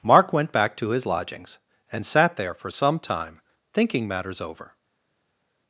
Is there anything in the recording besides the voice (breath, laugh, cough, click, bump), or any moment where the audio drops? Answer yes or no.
no